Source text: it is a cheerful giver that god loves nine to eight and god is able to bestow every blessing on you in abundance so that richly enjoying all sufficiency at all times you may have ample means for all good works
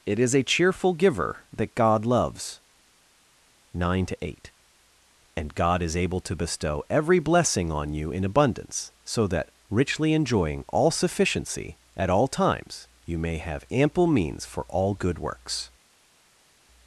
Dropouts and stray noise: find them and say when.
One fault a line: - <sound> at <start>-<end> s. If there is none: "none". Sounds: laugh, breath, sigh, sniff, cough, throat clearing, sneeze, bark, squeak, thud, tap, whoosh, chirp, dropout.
none